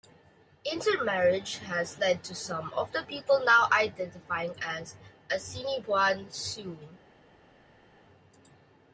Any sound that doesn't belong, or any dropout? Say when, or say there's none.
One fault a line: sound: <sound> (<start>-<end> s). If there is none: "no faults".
no faults